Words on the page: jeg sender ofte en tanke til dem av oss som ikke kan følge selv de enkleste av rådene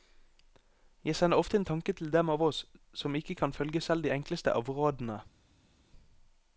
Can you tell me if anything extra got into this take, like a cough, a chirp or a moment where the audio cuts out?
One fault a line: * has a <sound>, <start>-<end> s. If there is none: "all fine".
all fine